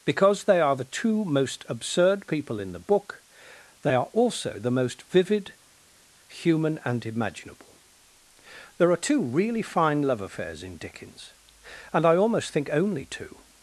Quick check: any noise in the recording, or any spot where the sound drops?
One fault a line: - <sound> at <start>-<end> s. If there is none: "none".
none